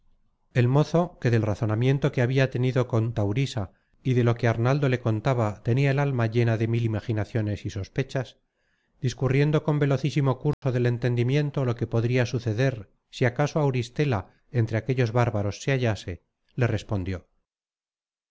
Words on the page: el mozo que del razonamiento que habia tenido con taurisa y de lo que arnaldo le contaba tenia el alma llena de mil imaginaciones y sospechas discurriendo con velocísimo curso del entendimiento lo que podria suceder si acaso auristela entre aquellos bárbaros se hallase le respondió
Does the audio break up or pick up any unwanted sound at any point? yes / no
yes